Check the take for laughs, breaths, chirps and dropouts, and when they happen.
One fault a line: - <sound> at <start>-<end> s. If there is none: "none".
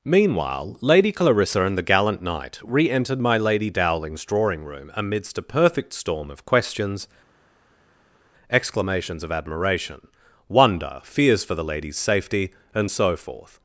none